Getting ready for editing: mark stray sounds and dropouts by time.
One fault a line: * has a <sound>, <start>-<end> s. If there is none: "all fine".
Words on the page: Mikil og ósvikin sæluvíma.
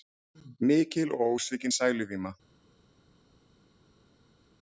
all fine